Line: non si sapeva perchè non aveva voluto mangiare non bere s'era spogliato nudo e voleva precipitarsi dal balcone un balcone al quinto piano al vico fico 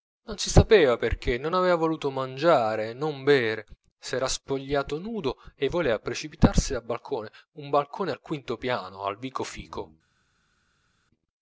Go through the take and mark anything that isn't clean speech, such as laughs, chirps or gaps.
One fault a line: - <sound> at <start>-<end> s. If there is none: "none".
none